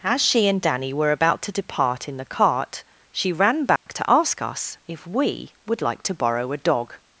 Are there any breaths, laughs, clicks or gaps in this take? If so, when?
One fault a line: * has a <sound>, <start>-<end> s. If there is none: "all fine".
* has a dropout, 3.8-3.9 s